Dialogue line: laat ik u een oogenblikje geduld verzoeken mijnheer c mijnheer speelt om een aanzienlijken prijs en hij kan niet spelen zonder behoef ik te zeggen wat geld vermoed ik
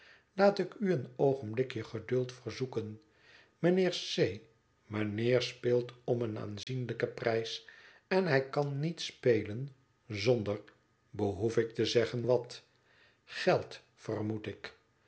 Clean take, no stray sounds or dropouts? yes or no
no